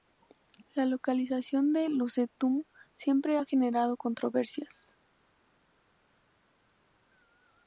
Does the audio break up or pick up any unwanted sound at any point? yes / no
no